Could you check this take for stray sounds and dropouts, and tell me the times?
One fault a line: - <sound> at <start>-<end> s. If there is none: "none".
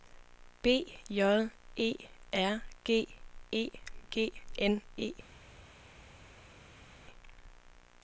none